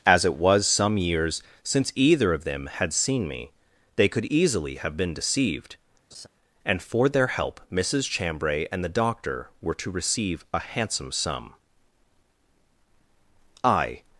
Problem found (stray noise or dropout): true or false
true